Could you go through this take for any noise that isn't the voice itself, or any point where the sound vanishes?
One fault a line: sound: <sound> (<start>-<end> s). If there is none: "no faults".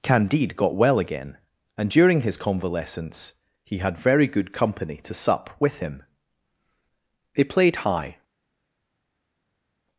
no faults